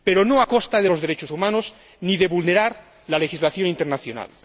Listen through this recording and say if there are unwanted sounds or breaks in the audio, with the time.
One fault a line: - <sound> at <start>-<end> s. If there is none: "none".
none